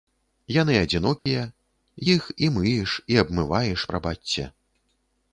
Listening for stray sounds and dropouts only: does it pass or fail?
fail